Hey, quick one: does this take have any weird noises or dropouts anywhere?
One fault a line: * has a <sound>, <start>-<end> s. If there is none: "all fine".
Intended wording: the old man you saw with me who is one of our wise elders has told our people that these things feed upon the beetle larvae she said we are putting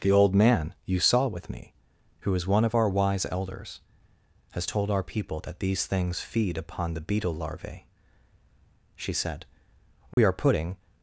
* has a dropout, 10.1-10.2 s